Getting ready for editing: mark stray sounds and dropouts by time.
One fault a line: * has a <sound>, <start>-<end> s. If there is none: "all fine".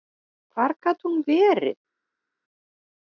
all fine